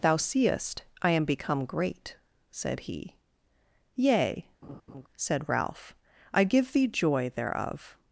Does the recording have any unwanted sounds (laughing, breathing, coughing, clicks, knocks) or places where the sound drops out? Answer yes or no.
yes